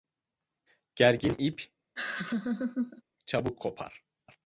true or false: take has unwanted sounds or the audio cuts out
true